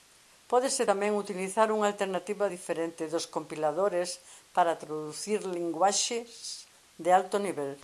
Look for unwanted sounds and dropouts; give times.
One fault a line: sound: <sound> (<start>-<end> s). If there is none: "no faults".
no faults